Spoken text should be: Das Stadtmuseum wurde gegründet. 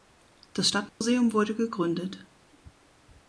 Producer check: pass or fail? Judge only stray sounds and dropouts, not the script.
fail